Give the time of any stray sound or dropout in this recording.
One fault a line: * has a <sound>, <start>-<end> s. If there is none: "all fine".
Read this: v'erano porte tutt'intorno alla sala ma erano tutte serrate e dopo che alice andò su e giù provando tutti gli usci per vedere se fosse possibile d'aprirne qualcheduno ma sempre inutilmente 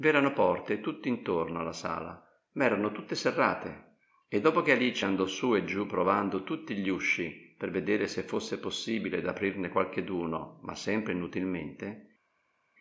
all fine